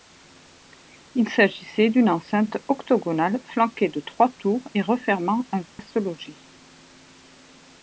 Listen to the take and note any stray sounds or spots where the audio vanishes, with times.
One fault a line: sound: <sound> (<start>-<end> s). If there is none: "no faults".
sound: dropout (5.7-5.8 s)